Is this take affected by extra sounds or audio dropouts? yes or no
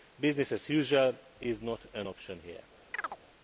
yes